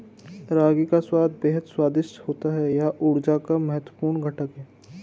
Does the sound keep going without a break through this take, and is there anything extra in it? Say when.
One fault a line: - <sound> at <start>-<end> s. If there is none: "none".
none